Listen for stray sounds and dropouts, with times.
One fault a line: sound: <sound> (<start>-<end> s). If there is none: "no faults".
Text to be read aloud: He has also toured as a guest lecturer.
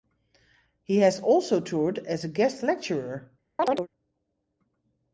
sound: chirp (3.6-3.9 s)